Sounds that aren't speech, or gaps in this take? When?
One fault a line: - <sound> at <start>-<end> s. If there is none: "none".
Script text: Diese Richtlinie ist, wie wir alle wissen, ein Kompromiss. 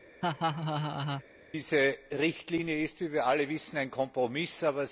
- laugh at 0.2-1.2 s